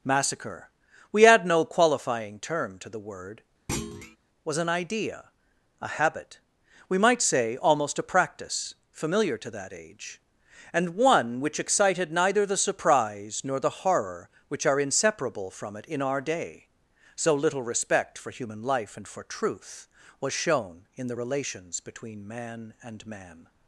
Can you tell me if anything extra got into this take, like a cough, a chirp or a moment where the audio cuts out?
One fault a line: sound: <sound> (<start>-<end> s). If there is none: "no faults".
sound: thud (3.7-4.2 s)